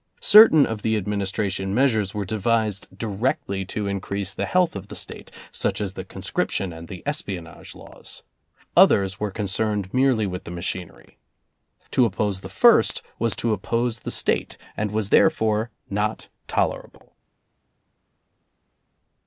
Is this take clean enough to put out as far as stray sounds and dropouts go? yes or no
yes